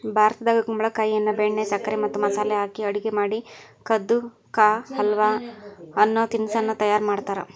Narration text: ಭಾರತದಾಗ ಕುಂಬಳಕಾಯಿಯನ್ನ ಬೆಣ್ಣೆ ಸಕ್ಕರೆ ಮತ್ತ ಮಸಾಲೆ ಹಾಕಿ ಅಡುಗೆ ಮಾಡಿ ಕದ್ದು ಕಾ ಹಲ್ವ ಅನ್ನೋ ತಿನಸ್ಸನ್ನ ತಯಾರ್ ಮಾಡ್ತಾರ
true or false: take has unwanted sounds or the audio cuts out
false